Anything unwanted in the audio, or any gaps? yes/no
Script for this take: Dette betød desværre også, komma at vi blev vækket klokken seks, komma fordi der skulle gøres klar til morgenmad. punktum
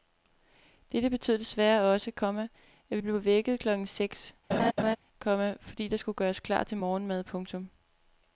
yes